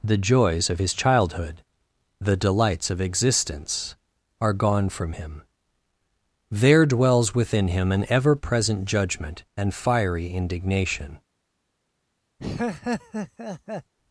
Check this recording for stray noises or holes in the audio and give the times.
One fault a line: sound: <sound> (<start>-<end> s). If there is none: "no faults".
sound: laugh (12.4-13.9 s)